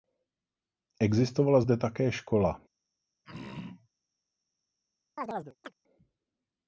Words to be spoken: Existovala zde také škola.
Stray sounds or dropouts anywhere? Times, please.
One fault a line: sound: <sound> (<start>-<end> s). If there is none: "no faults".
sound: throat clearing (3.2-3.9 s)
sound: chirp (5.2-5.7 s)